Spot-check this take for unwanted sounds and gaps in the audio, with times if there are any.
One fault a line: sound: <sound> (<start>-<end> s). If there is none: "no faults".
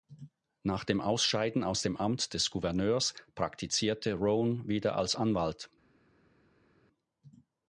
no faults